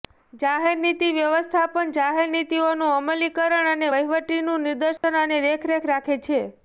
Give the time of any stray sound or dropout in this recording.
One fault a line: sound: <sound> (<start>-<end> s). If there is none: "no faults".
sound: dropout (5.0-5.0 s)